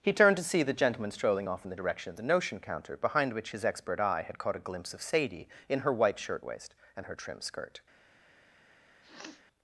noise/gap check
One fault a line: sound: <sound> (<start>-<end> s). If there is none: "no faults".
sound: sniff (9.0-9.4 s)